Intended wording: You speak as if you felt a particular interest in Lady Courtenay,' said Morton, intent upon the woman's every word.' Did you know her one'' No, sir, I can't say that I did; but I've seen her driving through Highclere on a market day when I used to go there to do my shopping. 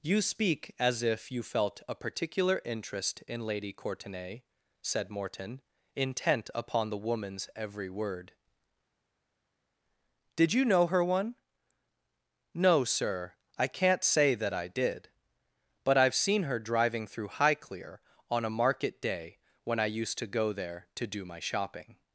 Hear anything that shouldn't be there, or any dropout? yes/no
no